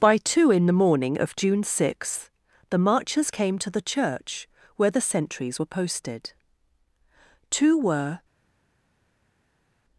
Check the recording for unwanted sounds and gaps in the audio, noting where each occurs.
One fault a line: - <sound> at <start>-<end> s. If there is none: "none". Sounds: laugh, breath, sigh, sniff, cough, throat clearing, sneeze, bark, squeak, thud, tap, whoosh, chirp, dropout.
none